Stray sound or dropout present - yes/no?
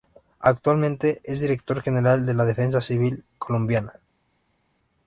no